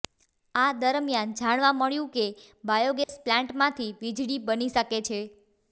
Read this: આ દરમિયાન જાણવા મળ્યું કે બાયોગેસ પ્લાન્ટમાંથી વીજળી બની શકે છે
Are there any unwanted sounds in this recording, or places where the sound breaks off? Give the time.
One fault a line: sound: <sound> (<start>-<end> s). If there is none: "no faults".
sound: dropout (3.0-3.1 s)